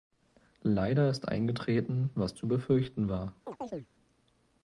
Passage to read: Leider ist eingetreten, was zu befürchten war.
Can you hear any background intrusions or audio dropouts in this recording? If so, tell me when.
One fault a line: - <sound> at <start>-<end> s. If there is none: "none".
- chirp at 3.4-3.9 s